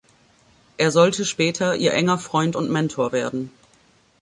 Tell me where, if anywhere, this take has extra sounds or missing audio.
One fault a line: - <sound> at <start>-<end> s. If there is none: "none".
none